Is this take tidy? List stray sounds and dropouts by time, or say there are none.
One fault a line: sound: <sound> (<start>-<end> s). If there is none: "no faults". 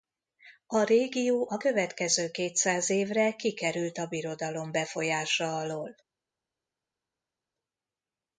no faults